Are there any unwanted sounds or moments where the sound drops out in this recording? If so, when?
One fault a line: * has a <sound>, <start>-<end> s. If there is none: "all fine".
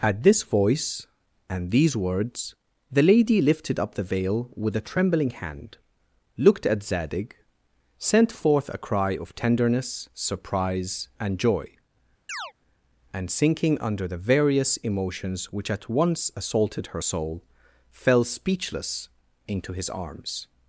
* has a chirp, 12.3-12.5 s